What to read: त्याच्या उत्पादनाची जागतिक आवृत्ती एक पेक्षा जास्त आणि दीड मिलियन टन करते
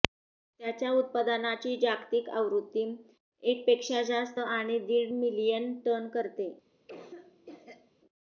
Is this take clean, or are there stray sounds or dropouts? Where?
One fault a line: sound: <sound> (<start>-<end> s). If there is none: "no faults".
sound: cough (6.9-7.9 s)